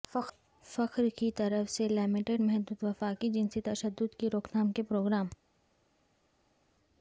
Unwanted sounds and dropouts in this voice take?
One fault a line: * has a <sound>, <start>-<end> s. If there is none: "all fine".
all fine